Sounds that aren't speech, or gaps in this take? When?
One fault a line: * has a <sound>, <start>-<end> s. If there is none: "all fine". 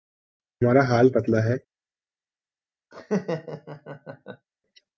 * has a laugh, 2.9-4.5 s